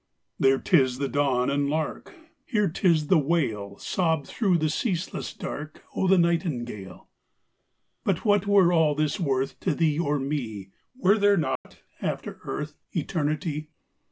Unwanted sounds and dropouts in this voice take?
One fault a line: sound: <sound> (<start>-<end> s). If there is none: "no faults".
sound: dropout (11.6-11.7 s)